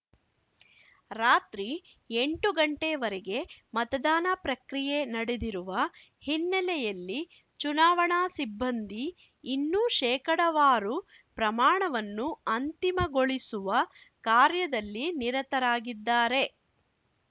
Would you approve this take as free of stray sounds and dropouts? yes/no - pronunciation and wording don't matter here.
yes